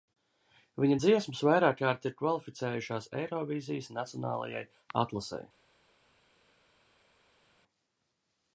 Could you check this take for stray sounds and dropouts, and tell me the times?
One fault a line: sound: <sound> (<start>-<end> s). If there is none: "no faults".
no faults